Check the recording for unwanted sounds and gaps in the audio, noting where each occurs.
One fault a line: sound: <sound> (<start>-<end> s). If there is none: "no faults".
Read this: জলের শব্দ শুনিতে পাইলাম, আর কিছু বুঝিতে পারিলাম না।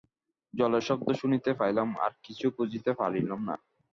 no faults